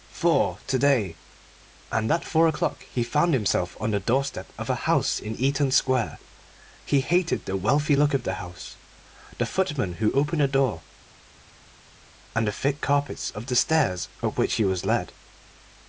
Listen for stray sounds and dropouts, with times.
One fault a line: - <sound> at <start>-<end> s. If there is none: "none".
none